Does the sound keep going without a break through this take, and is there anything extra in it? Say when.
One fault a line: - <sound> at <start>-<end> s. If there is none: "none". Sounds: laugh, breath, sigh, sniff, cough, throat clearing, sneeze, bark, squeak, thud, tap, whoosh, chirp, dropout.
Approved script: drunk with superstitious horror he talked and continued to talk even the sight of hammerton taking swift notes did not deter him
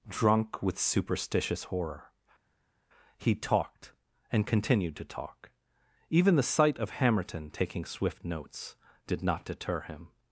none